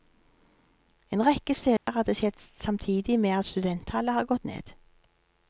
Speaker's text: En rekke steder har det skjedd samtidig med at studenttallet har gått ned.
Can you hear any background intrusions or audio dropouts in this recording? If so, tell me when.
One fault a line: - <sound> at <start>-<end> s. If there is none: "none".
- dropout at 1.8-1.9 s